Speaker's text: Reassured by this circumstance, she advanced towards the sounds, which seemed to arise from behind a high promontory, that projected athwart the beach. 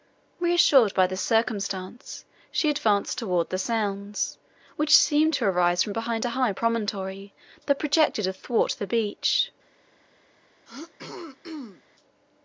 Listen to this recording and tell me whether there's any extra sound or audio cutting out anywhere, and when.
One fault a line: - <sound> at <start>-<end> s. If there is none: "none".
- throat clearing at 10.7-11.8 s